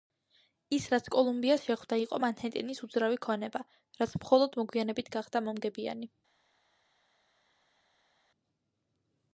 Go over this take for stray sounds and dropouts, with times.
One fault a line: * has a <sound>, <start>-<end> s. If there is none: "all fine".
all fine